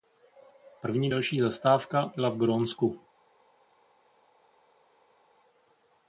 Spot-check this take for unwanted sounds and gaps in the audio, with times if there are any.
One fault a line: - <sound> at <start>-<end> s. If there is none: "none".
none